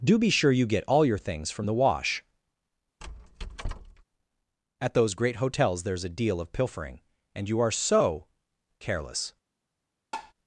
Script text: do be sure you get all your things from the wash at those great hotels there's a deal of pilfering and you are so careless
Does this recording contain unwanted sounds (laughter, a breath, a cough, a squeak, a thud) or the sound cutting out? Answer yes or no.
yes